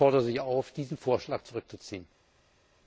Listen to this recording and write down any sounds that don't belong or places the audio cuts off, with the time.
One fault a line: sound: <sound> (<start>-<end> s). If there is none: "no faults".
no faults